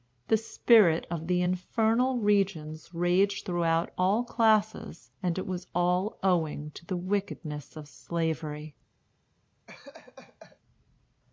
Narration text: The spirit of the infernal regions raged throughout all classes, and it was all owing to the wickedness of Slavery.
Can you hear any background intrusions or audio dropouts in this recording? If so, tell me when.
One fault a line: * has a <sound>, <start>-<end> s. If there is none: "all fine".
* has a laugh, 9.7-10.6 s